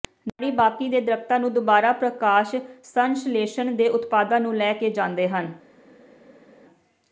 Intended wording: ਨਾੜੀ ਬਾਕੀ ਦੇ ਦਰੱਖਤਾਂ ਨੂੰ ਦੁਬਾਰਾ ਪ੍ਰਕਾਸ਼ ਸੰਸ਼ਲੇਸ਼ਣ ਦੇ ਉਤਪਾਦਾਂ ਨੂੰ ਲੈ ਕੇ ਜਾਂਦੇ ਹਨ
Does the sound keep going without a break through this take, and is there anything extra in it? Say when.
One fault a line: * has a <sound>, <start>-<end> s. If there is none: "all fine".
all fine